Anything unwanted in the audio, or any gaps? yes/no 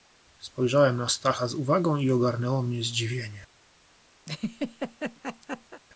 yes